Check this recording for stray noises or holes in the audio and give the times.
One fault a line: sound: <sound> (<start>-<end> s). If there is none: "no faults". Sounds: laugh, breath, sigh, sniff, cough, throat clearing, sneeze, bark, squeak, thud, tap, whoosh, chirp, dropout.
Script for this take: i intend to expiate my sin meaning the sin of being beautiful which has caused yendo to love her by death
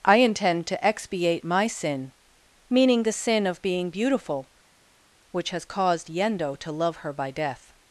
no faults